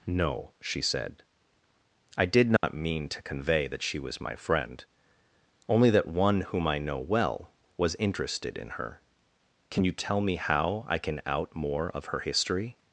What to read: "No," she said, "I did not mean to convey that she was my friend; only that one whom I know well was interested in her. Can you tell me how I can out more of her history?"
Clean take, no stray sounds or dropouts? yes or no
no